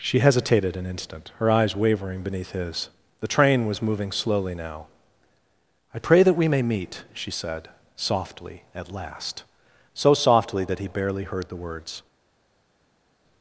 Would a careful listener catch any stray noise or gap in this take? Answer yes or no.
no